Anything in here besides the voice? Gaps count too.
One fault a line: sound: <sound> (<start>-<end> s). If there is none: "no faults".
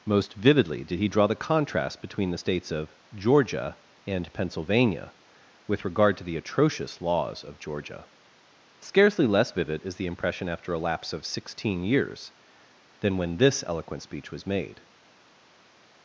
no faults